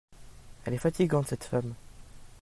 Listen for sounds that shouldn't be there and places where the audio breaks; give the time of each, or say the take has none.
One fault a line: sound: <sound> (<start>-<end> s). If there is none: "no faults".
no faults